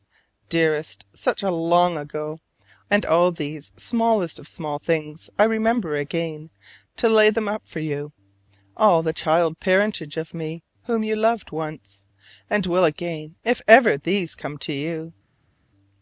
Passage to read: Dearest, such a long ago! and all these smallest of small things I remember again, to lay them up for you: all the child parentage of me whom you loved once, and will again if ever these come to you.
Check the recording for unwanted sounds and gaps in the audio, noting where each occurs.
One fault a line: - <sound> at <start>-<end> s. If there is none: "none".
none